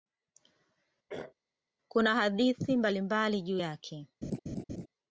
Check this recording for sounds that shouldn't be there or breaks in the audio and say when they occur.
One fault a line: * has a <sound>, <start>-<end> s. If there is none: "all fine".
* has a throat clearing, 1.1-1.3 s
* has a laugh, 4.2-4.9 s